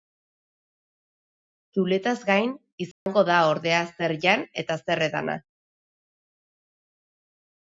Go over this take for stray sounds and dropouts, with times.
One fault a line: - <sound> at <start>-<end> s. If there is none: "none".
- dropout at 2.9-3.1 s